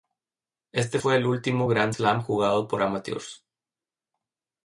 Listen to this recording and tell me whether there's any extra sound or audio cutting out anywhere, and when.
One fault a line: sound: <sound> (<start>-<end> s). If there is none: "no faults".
no faults